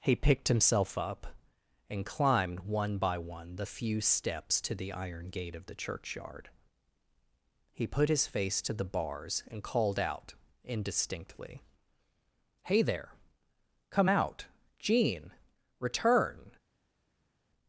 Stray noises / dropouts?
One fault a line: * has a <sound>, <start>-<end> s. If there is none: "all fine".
all fine